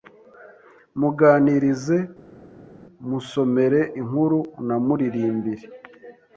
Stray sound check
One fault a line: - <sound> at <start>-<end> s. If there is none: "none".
none